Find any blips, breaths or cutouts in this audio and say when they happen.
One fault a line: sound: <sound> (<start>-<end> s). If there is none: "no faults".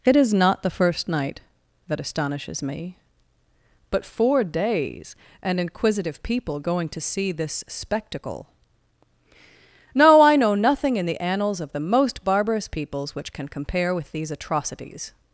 no faults